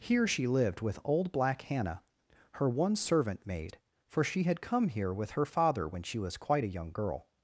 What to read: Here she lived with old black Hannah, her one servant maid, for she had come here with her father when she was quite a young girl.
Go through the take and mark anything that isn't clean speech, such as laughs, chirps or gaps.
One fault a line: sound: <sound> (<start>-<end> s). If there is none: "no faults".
no faults